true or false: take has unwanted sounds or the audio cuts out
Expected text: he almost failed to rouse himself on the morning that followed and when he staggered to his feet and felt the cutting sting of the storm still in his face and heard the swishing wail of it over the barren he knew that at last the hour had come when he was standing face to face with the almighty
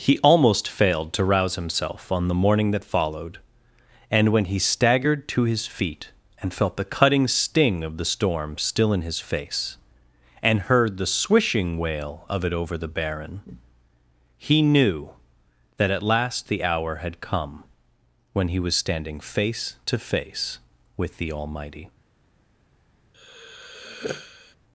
true